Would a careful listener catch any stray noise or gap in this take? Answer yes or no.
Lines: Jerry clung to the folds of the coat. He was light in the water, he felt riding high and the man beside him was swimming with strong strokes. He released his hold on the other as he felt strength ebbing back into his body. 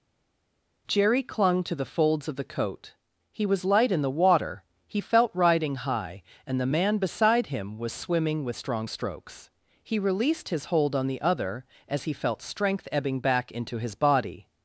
no